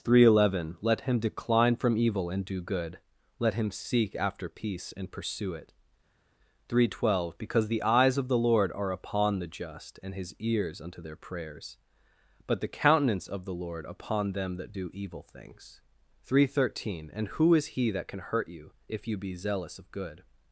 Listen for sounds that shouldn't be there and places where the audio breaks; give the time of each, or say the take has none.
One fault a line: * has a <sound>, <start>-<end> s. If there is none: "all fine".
all fine